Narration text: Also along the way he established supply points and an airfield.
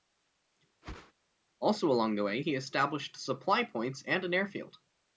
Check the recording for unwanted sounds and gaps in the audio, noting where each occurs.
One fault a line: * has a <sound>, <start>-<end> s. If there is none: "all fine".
* has a whoosh, 0.8-1.1 s